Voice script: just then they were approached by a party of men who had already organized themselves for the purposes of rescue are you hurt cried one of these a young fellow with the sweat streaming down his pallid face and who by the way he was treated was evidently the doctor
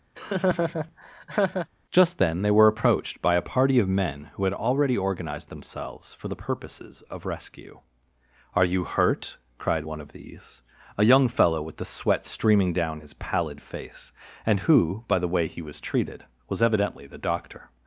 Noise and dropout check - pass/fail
fail